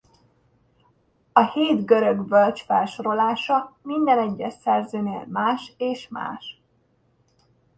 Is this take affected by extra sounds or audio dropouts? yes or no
no